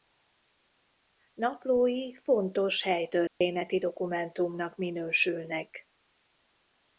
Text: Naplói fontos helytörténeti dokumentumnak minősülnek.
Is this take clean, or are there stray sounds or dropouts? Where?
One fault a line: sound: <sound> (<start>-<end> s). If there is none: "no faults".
sound: dropout (3.3-3.4 s)